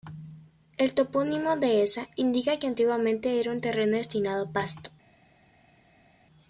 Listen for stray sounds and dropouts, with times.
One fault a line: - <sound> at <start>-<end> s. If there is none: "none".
none